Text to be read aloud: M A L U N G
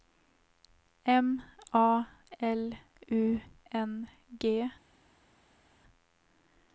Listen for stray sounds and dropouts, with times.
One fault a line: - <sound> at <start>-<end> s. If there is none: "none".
none